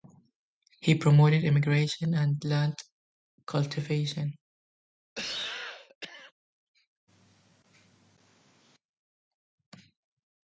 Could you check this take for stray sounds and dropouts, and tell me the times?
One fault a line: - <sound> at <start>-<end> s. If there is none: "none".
- cough at 5.1-6.3 s